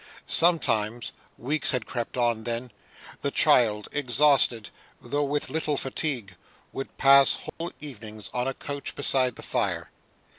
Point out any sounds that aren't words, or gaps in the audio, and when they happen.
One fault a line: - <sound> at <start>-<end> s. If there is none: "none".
- dropout at 7.5-7.6 s